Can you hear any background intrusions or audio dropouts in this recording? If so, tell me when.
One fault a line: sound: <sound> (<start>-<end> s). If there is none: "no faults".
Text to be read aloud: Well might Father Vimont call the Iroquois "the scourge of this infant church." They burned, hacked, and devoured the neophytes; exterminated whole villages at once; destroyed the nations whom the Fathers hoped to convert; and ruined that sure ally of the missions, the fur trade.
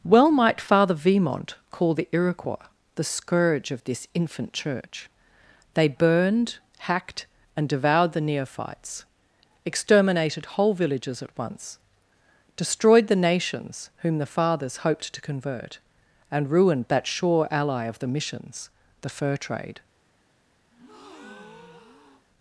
sound: breath (20.7-22.2 s)